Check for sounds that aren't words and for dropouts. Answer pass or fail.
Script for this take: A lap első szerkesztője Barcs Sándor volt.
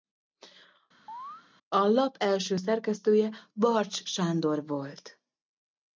fail